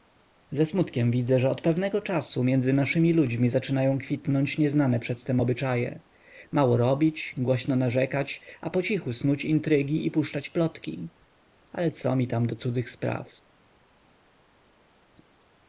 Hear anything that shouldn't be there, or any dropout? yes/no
no